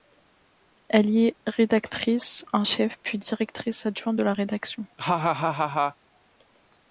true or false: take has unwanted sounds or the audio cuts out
true